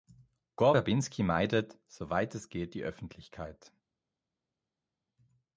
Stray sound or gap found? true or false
false